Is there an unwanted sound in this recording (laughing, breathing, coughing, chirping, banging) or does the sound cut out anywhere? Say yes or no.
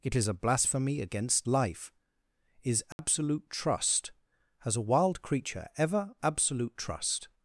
yes